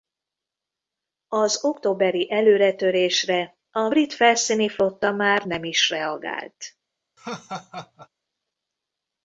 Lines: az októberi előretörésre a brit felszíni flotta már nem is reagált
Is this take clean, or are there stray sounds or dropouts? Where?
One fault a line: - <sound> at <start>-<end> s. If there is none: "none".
- laugh at 7.2-8.1 s